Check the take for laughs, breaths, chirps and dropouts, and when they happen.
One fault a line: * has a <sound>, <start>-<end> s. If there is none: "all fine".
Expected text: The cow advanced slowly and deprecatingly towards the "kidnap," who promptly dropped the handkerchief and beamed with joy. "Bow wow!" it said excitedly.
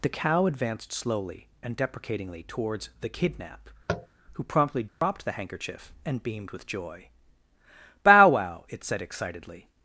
* has a tap, 3.9-4.1 s
* has a dropout, 4.9-5.0 s